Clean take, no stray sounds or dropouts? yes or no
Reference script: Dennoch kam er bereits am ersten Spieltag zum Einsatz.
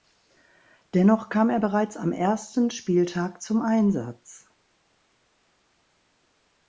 yes